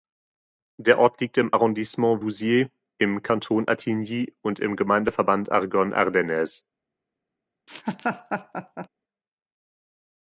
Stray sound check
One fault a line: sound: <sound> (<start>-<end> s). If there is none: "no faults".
sound: laugh (7.7-8.9 s)